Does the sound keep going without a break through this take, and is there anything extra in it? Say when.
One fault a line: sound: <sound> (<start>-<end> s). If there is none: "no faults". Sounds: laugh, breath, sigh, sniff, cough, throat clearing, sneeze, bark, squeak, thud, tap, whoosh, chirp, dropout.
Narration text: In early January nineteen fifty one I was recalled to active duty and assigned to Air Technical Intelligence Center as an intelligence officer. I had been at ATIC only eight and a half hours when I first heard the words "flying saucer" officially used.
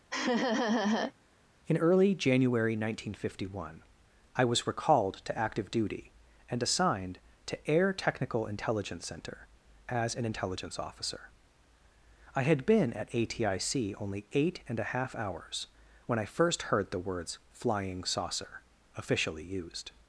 sound: laugh (0.1-1.1 s)